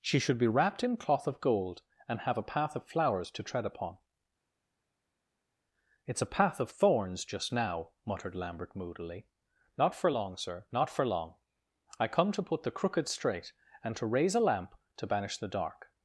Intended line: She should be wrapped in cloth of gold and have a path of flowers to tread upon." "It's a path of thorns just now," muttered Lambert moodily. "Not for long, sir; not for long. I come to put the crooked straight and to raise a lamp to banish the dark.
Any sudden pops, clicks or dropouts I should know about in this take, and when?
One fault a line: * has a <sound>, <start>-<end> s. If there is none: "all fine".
all fine